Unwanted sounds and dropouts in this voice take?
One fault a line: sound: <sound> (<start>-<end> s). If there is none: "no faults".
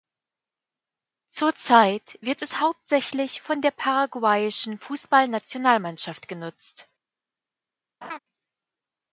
sound: laugh (8.0-8.2 s)